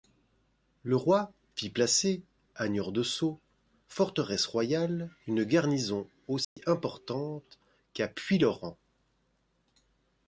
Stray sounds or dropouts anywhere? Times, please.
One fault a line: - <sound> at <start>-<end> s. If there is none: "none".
- dropout at 6.4-6.6 s